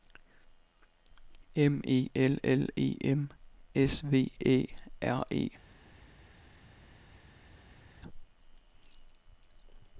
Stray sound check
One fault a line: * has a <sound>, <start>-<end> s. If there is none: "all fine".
all fine